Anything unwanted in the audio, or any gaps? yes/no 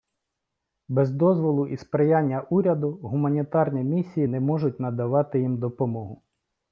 no